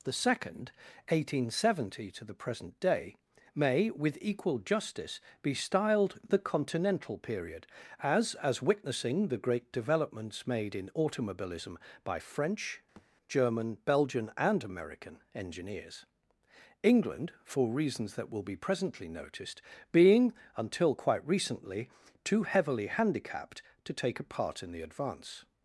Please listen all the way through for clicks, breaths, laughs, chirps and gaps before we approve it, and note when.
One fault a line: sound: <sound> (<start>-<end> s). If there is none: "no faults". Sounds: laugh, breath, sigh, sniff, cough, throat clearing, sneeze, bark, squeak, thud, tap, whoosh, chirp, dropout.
sound: thud (13.0-13.1 s)